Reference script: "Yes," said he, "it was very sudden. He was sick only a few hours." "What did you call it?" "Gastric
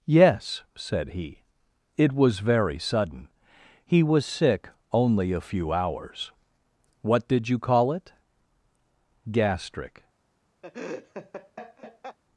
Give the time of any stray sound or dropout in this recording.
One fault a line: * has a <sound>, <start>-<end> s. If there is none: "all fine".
* has a laugh, 10.6-12.2 s